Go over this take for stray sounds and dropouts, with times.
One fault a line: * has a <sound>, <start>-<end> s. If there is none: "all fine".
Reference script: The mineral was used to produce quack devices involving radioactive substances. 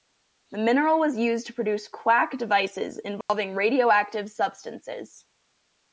* has a dropout, 3.2-3.3 s